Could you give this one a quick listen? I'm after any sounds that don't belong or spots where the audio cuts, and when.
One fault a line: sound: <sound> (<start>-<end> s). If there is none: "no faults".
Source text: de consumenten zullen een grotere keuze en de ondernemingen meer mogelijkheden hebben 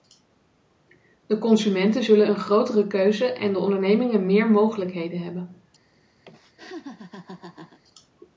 sound: laugh (6.2-7.8 s)